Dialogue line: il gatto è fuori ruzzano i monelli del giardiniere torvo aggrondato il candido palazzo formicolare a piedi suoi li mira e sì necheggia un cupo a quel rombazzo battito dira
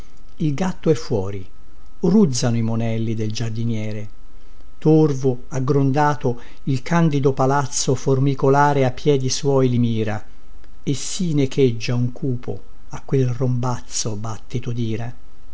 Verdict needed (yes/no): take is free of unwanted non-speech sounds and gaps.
yes